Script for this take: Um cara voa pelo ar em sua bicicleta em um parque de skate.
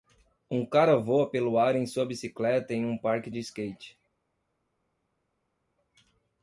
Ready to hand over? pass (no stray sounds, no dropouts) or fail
pass